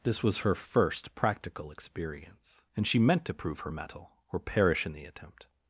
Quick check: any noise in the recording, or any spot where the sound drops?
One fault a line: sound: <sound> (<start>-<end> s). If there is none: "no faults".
no faults